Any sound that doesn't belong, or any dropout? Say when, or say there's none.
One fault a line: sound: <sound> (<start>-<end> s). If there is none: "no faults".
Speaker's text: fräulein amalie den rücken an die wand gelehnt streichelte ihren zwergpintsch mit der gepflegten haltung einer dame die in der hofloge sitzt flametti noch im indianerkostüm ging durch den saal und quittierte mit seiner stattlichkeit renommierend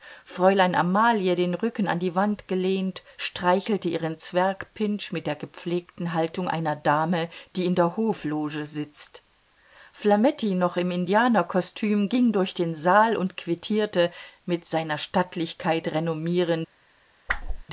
sound: whoosh (17.3-17.6 s)